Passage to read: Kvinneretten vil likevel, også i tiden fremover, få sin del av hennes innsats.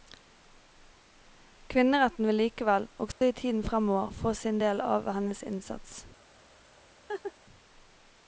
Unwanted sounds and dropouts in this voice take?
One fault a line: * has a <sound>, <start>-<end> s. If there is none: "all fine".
* has a dropout, 3.1-3.2 s
* has a laugh, 7.1-7.3 s